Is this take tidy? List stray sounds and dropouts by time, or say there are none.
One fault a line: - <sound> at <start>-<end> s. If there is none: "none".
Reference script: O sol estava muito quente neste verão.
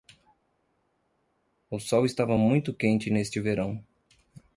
none